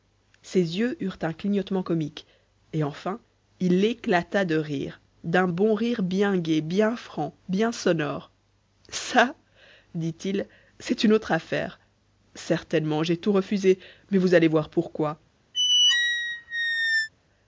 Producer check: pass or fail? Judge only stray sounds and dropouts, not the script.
fail